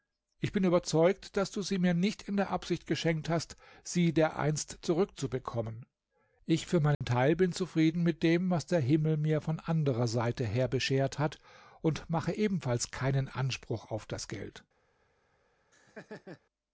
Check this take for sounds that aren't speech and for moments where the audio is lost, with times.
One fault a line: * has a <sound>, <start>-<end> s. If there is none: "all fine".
* has a dropout, 6.9-7.0 s
* has a laugh, 15.7-16.4 s